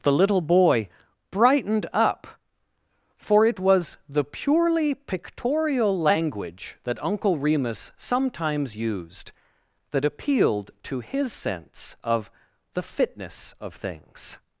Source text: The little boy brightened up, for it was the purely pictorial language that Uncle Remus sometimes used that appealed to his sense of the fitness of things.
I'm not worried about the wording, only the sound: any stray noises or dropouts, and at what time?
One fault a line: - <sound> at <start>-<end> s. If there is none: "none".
none